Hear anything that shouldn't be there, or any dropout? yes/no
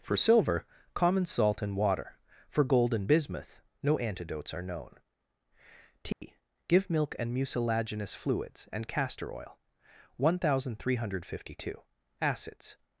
yes